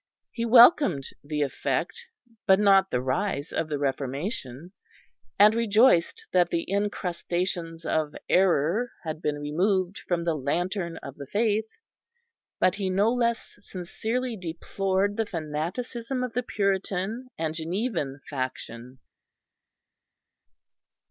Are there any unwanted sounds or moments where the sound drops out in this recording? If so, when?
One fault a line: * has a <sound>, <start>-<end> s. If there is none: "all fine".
all fine